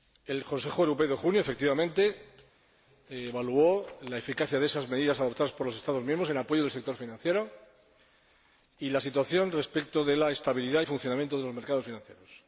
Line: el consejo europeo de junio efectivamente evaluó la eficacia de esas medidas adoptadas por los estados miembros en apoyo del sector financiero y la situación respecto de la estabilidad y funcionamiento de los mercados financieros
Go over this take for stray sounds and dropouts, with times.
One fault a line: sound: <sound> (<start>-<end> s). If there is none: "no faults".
no faults